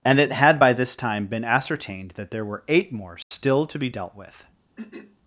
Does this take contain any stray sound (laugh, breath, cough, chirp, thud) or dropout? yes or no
yes